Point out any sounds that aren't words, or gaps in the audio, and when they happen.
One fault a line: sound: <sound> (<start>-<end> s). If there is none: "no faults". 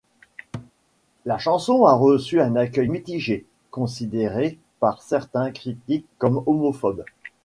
sound: thud (0.5-0.7 s)